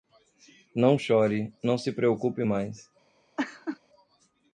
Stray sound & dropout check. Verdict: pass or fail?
fail